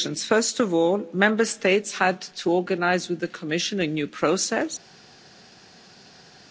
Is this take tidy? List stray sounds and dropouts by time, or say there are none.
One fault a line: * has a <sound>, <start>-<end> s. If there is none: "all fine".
all fine